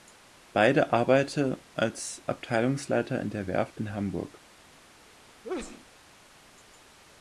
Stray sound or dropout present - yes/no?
yes